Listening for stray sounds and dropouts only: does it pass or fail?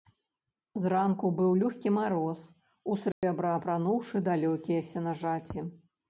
fail